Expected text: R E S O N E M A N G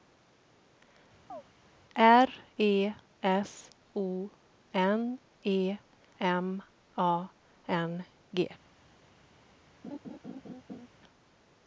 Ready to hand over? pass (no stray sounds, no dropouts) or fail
fail